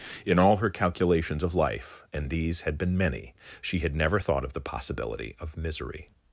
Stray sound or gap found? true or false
false